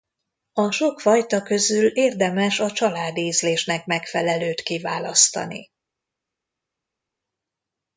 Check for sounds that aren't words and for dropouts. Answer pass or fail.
pass